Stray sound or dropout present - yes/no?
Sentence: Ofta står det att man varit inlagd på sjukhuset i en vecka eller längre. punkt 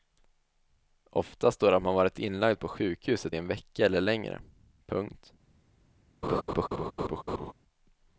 yes